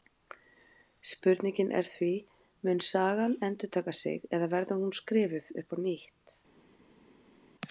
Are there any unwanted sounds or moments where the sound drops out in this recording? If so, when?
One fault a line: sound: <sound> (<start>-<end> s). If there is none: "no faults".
no faults